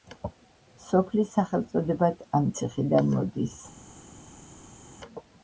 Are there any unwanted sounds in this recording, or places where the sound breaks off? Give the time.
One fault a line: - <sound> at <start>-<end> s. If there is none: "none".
none